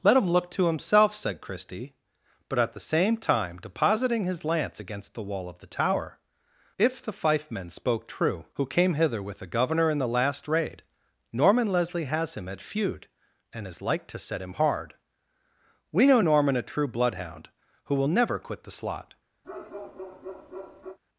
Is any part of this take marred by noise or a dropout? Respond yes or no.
yes